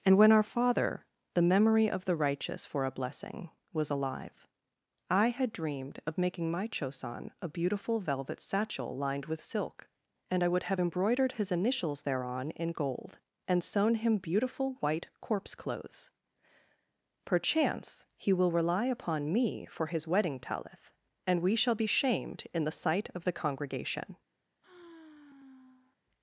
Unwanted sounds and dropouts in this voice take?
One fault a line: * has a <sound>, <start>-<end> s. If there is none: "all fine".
* has a sigh, 24.6-26.0 s